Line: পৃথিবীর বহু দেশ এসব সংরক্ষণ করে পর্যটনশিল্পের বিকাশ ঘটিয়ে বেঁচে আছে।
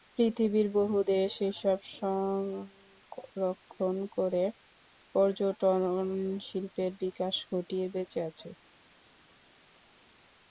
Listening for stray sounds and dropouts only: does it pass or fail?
pass